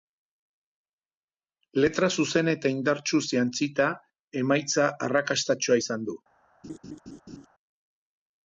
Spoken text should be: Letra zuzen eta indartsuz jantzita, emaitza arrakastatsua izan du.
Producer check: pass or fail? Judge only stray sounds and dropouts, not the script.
fail